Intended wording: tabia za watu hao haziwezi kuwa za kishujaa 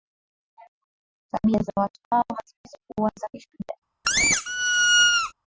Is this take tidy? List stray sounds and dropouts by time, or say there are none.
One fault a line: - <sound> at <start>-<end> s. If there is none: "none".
- squeak at 4.0-5.3 s